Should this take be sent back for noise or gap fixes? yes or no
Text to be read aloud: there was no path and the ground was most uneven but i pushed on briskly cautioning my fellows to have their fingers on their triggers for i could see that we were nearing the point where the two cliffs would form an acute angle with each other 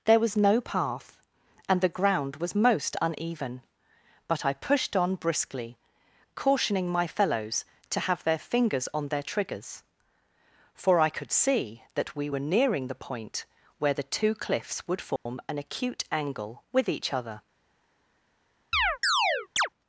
yes